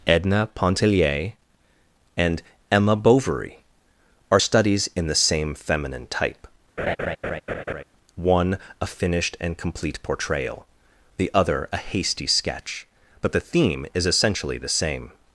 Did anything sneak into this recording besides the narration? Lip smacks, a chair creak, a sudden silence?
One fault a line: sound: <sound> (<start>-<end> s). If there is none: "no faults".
sound: laugh (6.8-7.8 s)